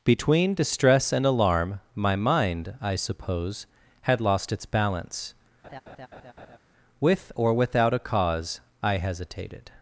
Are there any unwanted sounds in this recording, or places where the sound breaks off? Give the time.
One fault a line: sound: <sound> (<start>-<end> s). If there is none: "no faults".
sound: laugh (5.6-6.6 s)